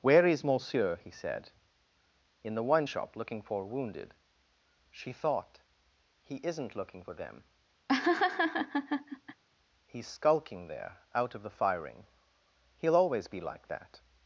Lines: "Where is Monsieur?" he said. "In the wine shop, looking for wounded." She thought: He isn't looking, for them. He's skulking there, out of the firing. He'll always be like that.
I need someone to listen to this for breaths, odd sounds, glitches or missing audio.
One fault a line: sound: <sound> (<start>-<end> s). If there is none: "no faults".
sound: laugh (7.9-9.4 s)